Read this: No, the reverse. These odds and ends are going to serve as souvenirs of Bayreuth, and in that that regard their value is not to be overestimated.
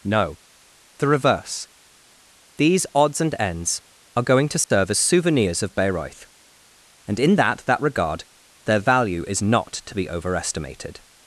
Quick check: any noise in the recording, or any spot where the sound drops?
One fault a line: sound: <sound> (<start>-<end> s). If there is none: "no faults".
sound: dropout (4.6-4.7 s)